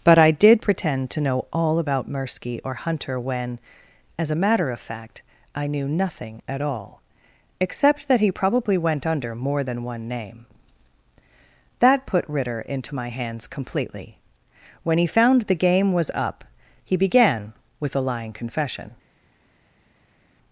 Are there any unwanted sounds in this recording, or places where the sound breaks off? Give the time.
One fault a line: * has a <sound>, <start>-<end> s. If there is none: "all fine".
all fine